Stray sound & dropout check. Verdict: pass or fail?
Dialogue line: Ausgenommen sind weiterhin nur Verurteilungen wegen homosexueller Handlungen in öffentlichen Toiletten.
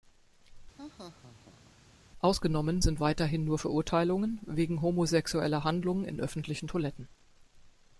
fail